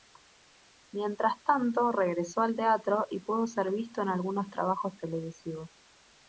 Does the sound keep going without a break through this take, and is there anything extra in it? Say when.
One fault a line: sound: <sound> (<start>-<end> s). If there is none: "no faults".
no faults